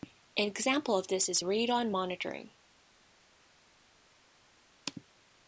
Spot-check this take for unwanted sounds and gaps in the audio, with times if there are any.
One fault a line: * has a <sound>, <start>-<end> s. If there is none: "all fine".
all fine